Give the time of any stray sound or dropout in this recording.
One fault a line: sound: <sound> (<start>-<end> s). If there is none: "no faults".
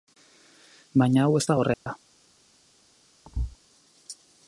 sound: dropout (1.7-1.9 s)
sound: thud (3.2-3.6 s)